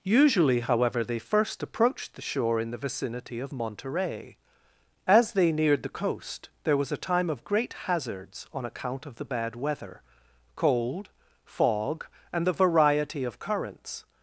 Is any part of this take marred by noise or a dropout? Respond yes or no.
no